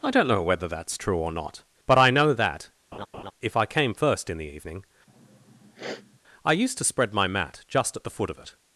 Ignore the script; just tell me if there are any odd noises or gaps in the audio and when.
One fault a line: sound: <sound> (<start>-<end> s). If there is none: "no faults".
sound: laugh (2.9-3.3 s)
sound: sniff (5.1-6.2 s)